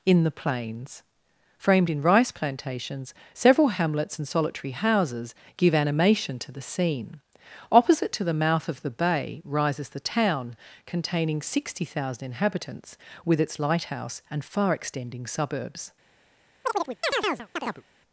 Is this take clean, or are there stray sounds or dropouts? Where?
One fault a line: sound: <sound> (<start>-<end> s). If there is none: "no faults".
sound: chirp (16.6-17.8 s)